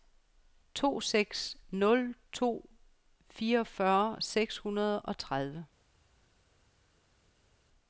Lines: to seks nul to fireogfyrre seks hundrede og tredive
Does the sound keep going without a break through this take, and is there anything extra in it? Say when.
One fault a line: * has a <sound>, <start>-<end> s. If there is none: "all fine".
all fine